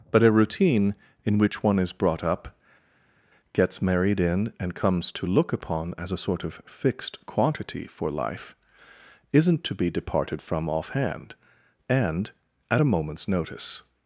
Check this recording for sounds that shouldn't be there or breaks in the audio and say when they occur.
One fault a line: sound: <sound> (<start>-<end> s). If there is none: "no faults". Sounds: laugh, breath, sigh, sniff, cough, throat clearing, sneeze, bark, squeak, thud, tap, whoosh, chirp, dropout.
no faults